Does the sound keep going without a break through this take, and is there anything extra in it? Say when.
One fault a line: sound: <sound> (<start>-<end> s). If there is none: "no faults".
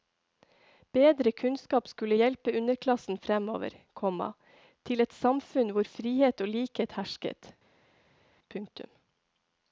no faults